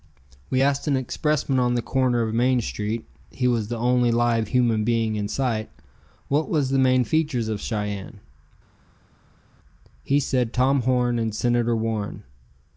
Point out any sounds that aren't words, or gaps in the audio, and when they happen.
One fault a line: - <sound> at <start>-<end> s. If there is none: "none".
none